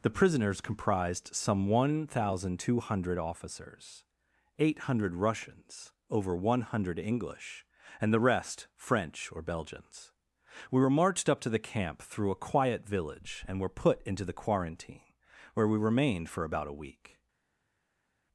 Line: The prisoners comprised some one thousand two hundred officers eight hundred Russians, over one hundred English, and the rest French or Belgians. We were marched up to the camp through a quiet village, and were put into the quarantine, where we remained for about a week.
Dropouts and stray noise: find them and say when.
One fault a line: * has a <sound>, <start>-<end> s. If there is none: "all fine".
all fine